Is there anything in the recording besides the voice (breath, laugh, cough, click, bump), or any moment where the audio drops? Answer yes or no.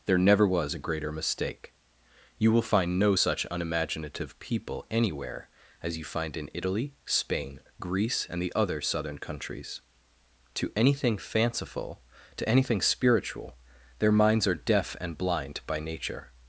no